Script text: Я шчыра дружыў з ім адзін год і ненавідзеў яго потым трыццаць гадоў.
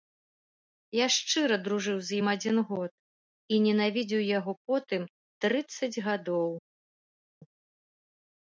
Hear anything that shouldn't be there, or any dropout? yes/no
no